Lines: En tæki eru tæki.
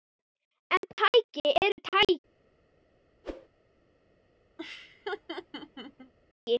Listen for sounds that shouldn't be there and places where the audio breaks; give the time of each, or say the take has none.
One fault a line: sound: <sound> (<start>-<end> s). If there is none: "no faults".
sound: whoosh (3.2-3.5 s)
sound: laugh (4.6-6.1 s)